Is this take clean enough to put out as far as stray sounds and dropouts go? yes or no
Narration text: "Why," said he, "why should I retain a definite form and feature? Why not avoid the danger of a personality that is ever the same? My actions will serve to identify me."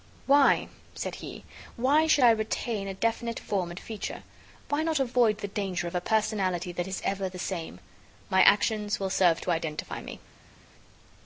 yes